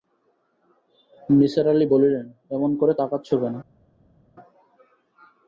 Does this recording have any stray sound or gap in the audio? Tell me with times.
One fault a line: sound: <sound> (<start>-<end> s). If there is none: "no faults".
no faults